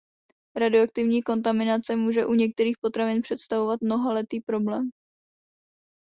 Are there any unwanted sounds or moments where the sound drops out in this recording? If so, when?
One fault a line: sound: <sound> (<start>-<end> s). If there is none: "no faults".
no faults